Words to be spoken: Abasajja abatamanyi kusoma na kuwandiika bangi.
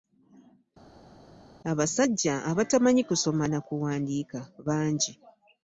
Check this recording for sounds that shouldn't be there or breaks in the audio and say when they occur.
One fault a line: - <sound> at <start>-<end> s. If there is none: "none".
none